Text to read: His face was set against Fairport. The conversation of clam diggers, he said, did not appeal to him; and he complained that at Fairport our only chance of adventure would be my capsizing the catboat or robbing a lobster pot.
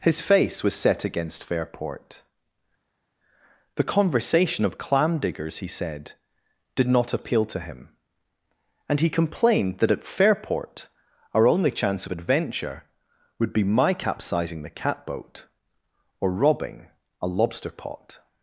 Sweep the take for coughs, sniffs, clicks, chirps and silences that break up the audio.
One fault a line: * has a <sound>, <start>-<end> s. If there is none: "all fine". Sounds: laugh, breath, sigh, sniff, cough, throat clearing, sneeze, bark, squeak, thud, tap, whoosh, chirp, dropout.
all fine